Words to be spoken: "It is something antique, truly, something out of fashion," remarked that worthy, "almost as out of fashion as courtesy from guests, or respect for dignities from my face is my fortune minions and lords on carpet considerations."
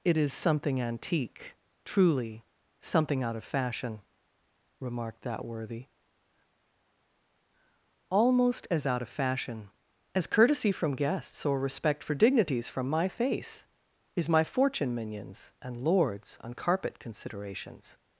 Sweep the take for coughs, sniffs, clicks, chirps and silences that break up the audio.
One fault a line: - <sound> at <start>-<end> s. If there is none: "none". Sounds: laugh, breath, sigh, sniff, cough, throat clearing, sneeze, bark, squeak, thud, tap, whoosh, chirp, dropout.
none